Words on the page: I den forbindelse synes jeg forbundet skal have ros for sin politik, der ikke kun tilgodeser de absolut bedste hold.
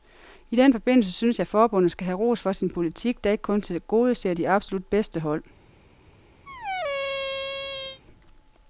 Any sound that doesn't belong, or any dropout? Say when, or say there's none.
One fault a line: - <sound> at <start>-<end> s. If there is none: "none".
- squeak at 6.5-8.0 s